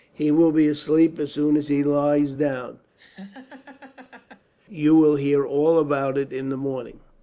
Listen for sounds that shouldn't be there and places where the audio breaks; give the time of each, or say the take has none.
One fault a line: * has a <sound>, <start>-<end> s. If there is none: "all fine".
* has a laugh, 3.0-4.5 s